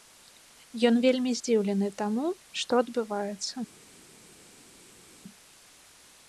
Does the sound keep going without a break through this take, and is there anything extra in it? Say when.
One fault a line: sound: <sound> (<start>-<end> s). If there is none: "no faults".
no faults